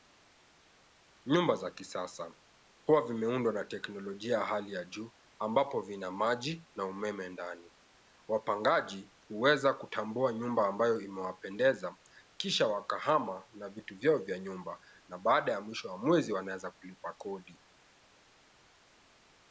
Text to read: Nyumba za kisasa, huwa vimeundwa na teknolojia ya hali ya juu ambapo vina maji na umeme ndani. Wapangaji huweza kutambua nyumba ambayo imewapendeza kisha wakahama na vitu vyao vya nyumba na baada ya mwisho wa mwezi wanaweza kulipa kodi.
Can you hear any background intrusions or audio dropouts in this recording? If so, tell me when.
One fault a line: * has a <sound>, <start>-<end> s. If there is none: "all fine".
all fine